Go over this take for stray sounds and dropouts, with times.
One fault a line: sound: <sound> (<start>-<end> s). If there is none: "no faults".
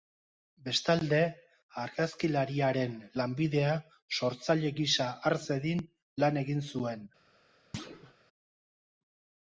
sound: thud (7.7-8.1 s)